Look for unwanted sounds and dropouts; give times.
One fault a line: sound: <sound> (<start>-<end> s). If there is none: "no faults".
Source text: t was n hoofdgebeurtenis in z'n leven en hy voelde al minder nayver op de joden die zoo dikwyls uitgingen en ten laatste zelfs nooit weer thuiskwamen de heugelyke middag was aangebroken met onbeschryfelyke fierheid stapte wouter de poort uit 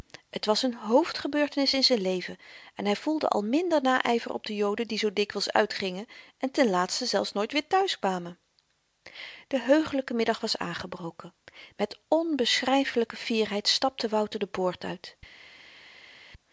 no faults